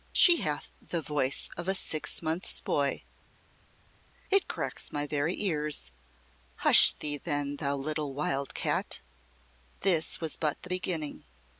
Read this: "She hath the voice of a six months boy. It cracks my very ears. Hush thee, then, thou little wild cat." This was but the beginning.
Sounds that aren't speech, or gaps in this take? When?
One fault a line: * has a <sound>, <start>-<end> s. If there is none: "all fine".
all fine